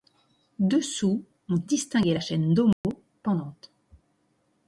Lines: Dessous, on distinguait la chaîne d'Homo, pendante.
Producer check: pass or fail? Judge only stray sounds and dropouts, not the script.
fail